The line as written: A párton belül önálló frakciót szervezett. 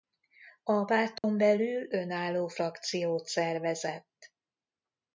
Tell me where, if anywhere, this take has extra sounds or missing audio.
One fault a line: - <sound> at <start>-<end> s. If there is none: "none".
- dropout at 1.2-1.2 s